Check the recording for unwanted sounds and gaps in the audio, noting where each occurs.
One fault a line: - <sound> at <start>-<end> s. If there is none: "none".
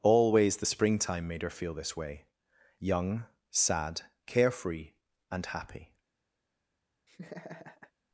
- laugh at 7.1-7.9 s